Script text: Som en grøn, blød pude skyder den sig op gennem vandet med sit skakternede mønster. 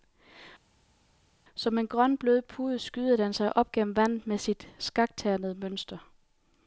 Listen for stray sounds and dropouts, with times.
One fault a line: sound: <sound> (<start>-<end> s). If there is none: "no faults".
no faults